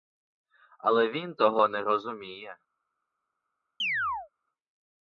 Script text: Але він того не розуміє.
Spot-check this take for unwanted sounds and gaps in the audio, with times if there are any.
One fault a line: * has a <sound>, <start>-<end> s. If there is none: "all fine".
* has a chirp, 3.8-4.3 s